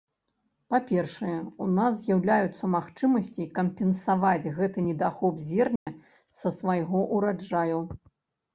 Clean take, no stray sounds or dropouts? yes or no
no